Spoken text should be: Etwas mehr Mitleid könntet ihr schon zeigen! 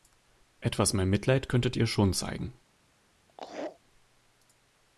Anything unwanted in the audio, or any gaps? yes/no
yes